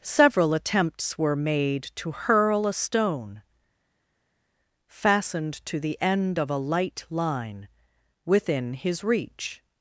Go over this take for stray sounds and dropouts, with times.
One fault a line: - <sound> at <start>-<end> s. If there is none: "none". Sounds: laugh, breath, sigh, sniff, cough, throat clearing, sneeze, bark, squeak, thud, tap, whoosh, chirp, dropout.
none